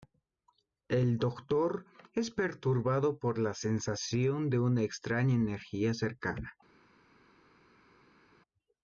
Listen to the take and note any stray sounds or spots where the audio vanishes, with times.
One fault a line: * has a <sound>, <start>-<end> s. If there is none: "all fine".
all fine